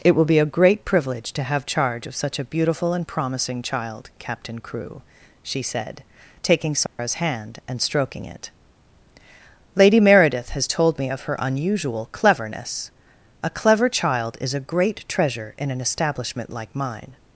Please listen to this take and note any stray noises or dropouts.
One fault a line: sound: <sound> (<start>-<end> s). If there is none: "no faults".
sound: dropout (6.9-7.0 s)